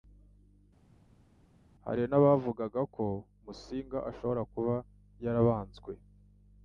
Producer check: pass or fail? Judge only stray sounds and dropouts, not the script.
pass